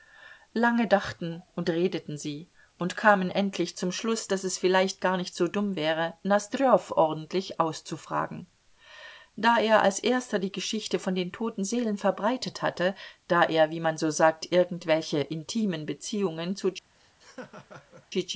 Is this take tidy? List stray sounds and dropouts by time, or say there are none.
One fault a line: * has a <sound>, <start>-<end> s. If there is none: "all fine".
* has a laugh, 16.9-18.1 s